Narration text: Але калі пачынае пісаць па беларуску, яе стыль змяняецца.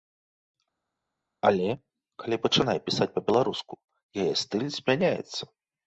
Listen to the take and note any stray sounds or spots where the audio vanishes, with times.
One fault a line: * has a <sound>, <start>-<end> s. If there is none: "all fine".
all fine